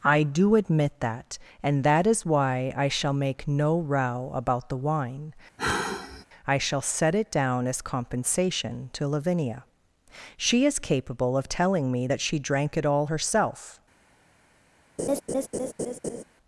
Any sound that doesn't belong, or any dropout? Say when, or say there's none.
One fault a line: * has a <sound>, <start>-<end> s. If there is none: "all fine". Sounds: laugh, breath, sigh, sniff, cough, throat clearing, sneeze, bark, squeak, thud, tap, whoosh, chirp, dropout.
* has a sigh, 5.6-6.2 s
* has a laugh, 15.0-16.2 s